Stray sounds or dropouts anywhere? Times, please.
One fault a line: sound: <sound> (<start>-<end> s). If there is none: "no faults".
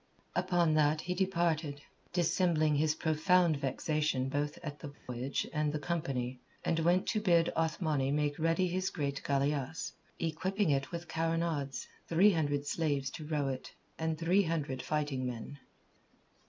sound: dropout (4.9-5.1 s)